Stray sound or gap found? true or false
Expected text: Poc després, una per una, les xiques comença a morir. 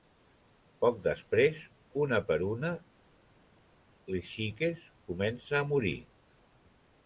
false